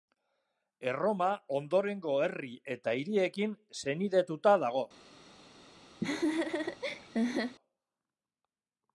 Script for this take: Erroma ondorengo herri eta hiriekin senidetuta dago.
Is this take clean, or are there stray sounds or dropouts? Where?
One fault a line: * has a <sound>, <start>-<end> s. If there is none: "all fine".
* has a laugh, 6.0-7.6 s